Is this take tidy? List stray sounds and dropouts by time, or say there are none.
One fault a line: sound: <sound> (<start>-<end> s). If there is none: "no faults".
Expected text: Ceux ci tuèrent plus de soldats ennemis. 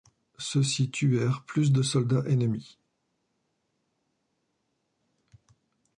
no faults